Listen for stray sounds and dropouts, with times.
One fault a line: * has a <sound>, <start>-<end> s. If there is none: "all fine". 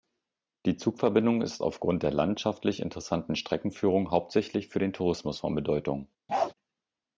* has a bark, 6.3-6.5 s